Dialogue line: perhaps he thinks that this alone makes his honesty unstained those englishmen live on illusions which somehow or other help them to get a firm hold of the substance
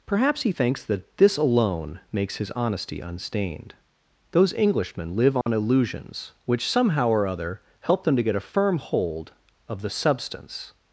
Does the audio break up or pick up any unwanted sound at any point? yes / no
yes